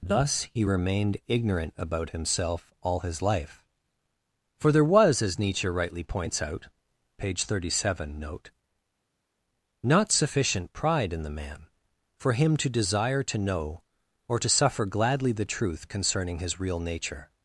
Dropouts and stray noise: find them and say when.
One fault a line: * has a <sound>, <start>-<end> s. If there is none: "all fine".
all fine